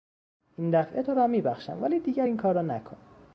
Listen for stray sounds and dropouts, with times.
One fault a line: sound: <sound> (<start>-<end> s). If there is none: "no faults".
no faults